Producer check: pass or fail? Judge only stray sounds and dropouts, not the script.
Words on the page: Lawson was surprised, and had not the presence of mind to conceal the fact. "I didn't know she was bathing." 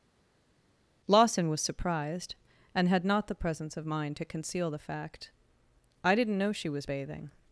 pass